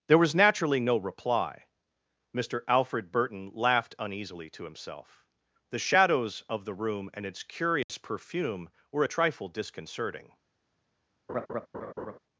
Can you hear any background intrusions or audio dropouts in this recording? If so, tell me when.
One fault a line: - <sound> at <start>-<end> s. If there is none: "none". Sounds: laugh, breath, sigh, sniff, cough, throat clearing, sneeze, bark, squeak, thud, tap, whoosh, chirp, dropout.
- dropout at 7.8-7.9 s
- laugh at 11.3-12.2 s